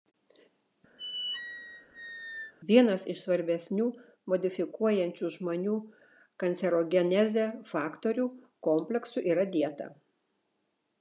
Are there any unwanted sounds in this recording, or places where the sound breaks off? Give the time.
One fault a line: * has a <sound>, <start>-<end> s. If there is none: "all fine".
* has a squeak, 1.0-2.5 s